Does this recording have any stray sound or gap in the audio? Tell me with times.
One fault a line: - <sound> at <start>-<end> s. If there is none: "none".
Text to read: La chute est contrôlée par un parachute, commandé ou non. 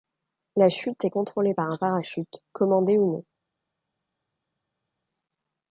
none